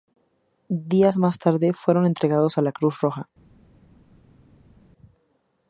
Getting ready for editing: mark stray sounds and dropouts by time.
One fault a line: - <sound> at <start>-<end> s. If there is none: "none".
none